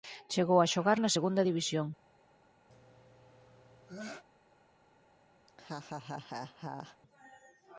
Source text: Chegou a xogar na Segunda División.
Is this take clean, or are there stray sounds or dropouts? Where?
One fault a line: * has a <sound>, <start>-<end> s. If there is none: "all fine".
* has a sneeze, 2.7-4.2 s
* has a laugh, 5.5-7.0 s